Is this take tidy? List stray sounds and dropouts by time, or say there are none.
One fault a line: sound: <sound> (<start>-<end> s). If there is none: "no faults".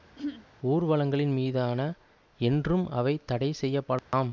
sound: throat clearing (0.2-0.5 s)
sound: dropout (4.0-4.1 s)